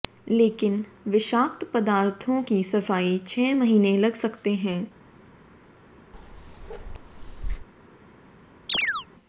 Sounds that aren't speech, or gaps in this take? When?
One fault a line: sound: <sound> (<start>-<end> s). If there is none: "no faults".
sound: bark (6.1-7.7 s)
sound: chirp (8.7-9.1 s)